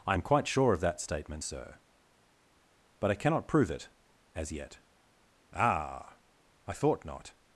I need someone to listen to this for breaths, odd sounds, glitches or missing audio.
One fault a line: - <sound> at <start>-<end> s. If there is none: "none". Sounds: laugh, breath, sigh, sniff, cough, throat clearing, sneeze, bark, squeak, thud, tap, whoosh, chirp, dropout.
none